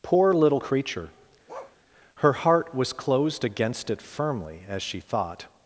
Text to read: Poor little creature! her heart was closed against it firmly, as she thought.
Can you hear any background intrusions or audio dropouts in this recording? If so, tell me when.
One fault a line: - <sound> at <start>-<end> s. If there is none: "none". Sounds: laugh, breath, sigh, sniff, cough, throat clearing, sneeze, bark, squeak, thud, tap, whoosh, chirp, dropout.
- bark at 1.5-1.8 s